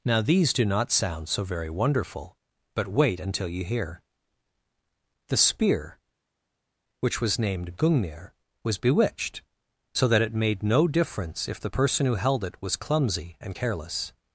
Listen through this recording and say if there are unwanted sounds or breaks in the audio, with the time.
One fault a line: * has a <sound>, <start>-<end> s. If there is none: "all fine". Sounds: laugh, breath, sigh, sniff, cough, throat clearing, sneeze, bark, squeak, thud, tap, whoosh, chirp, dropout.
all fine